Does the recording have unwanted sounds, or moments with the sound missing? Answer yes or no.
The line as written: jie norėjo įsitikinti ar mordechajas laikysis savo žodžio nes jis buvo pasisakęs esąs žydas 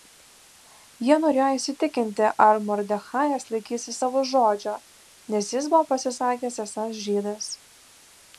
no